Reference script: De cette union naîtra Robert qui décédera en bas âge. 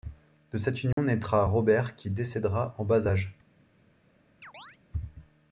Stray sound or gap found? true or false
true